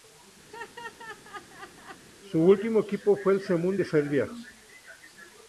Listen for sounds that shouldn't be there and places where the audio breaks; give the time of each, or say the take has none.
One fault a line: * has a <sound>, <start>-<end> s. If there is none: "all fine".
* has a laugh, 0.5-2.1 s